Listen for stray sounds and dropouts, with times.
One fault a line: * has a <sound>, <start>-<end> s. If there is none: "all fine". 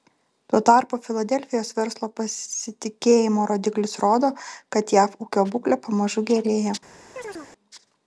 * has a chirp, 7.2-7.5 s